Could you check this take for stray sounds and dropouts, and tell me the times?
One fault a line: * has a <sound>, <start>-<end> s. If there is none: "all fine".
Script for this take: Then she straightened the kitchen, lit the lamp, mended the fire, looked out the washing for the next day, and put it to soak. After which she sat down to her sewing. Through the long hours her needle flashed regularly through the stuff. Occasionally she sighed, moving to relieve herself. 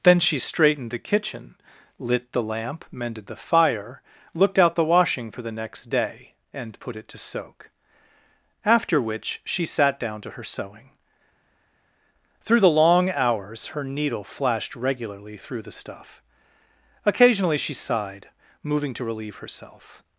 all fine